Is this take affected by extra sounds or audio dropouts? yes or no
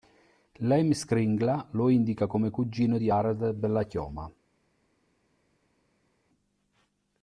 no